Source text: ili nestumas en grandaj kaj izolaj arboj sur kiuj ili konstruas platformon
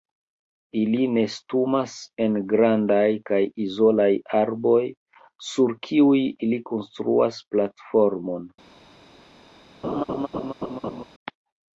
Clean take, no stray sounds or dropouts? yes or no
no